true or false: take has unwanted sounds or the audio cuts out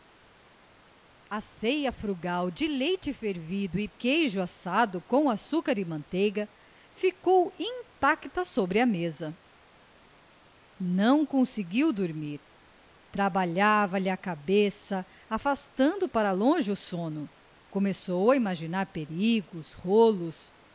false